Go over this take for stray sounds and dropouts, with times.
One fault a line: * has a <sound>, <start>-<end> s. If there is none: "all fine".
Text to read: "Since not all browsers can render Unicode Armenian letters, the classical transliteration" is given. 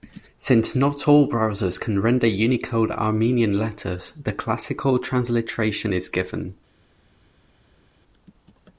all fine